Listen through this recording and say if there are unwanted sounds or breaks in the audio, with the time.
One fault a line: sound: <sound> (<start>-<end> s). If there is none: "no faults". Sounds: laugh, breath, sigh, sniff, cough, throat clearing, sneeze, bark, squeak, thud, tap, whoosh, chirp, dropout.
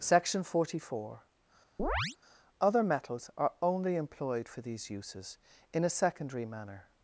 sound: chirp (1.8-2.2 s)